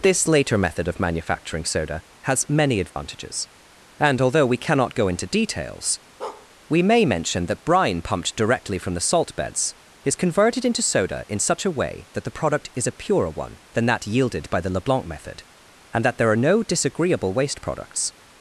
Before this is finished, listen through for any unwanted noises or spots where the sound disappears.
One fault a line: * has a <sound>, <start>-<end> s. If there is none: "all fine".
* has a dropout, 2.9-3.0 s
* has a bark, 6.2-6.5 s